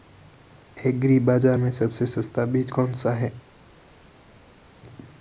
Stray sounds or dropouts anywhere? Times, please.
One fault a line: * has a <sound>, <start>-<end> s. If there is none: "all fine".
all fine